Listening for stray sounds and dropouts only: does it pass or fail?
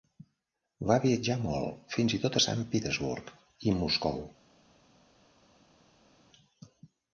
pass